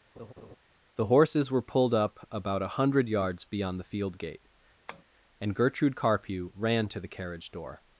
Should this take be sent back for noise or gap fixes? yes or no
yes